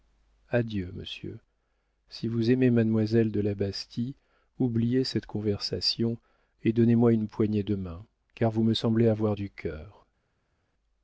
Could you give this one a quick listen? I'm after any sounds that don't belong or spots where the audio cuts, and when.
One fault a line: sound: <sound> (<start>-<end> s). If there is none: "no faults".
no faults